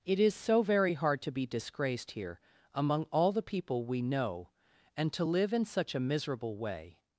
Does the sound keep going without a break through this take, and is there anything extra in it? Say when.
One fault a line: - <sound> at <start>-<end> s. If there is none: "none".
none